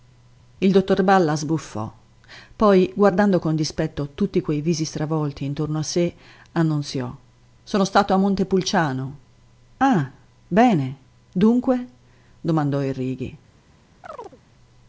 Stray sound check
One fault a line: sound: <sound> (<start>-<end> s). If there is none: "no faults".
sound: chirp (14.0-14.4 s)